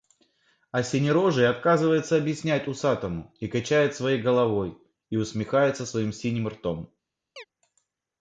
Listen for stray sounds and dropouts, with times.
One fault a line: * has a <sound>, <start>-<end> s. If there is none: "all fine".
* has a chirp, 7.4-7.4 s